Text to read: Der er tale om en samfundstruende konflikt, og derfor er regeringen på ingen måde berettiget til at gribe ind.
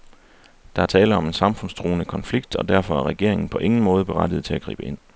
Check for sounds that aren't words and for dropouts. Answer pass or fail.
pass